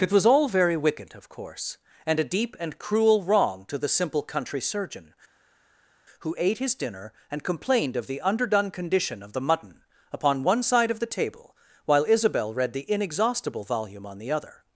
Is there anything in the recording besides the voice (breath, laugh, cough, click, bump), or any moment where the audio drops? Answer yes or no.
no